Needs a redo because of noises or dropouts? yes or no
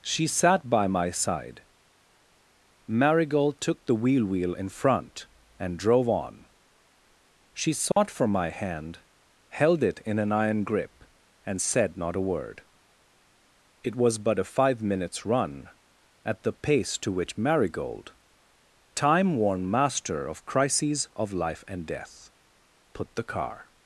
yes